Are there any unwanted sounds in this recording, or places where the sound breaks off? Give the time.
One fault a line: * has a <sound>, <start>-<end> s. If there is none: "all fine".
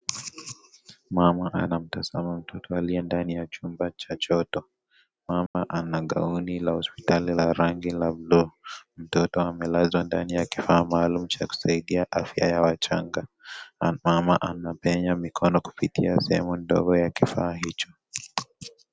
* has a dropout, 5.5-5.5 s